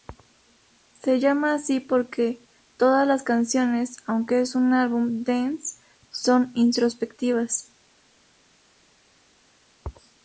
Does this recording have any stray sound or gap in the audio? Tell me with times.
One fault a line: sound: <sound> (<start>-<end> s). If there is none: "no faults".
no faults